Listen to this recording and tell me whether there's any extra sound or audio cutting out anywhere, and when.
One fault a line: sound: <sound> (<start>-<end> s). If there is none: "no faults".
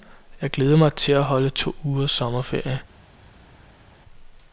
no faults